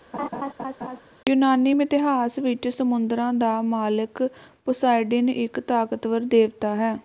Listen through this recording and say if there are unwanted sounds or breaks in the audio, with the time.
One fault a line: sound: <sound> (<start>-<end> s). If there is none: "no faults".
sound: laugh (0.1-1.0 s)